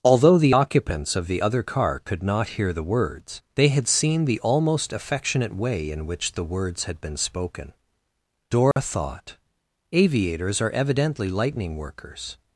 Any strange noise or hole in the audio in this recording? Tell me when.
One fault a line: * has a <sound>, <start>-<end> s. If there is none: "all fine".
* has a dropout, 8.7-8.8 s